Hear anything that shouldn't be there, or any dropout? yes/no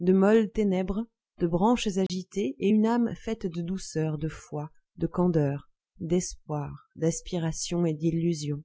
yes